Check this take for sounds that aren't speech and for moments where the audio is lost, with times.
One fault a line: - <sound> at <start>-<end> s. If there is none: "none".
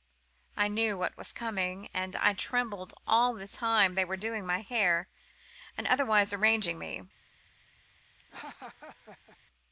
- laugh at 8.2-9.4 s